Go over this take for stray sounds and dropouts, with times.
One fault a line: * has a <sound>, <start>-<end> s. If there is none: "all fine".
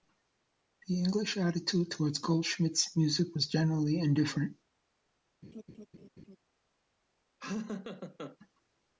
* has a laugh, 5.4-6.4 s
* has a laugh, 7.4-8.4 s